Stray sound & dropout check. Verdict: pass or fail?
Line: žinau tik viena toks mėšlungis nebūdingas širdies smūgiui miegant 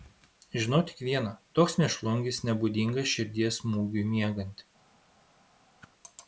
fail